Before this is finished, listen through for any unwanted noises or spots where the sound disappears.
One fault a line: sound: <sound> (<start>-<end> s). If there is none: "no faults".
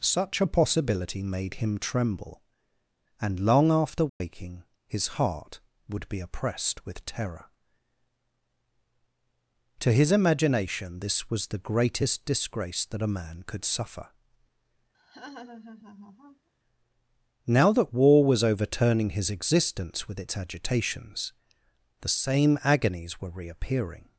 sound: dropout (4.1-4.2 s)
sound: laugh (14.9-16.5 s)